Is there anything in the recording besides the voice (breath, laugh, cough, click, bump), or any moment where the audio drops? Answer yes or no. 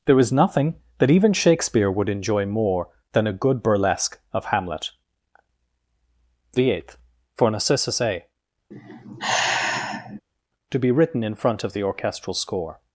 yes